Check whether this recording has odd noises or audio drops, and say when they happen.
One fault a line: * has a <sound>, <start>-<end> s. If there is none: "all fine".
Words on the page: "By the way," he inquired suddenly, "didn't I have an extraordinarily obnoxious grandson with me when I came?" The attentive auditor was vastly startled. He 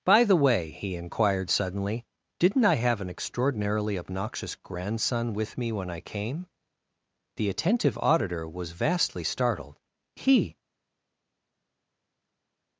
all fine